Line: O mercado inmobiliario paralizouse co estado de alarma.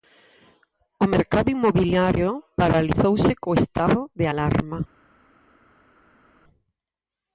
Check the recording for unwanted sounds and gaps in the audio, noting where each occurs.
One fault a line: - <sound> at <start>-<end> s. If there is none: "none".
none